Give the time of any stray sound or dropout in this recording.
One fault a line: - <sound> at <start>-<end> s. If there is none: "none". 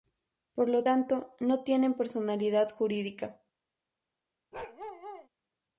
- bark at 4.5-5.3 s